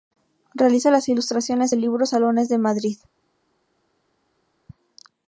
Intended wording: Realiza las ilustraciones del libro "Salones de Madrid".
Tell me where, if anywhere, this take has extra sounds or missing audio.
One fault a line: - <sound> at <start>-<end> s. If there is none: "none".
none